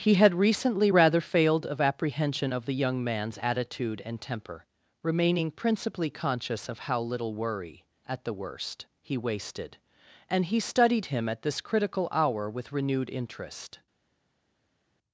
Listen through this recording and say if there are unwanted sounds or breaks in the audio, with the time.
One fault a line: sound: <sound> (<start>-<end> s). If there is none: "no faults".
no faults